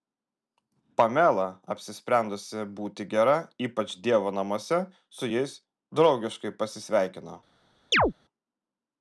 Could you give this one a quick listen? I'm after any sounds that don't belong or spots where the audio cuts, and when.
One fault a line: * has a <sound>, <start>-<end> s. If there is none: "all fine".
* has a chirp, 7.9-8.1 s